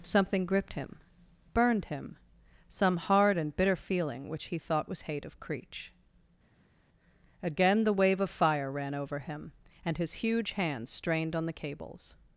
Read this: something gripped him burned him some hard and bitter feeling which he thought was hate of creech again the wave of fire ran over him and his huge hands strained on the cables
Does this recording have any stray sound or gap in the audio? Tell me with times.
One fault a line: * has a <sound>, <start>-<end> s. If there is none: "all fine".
all fine